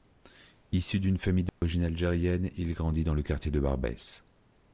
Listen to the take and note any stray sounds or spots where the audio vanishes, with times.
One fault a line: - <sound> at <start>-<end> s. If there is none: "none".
- dropout at 1.5-1.6 s